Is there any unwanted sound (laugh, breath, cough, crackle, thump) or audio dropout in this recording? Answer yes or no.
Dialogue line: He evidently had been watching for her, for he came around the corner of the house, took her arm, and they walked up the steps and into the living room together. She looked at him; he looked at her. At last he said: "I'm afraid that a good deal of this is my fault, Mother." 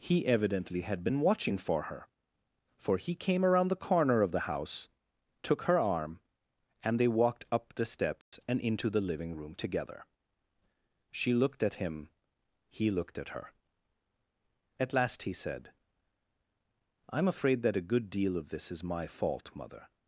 yes